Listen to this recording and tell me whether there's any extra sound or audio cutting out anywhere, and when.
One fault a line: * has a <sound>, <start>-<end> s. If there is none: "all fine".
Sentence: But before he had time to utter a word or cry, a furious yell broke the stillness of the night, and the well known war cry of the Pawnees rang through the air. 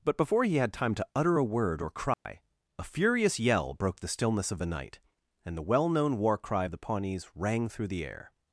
* has a dropout, 2.1-2.3 s